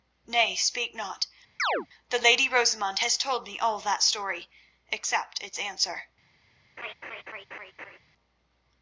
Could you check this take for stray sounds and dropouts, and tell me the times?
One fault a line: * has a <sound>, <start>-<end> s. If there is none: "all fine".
* has a chirp, 1.6-1.9 s
* has a laugh, 6.8-8.0 s